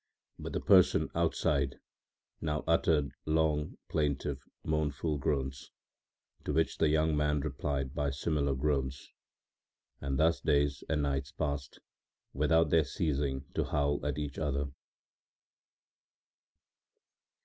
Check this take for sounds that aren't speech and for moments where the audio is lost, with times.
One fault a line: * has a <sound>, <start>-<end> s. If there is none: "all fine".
all fine